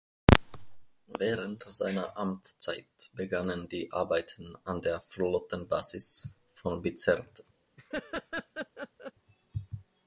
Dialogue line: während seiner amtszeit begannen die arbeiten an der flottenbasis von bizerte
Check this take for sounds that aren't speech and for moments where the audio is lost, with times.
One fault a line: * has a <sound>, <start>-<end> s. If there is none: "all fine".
* has a laugh, 7.8-9.1 s